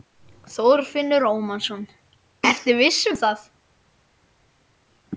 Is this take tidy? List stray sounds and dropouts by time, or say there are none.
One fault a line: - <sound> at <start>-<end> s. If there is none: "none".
none